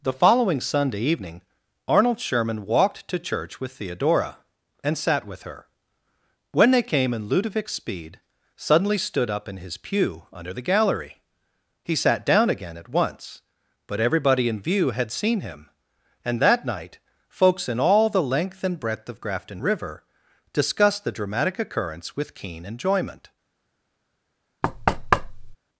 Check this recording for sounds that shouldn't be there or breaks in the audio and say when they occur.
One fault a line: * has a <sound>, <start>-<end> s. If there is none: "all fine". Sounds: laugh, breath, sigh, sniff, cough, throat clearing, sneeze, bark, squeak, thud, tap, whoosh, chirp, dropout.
* has a thud, 24.6-25.6 s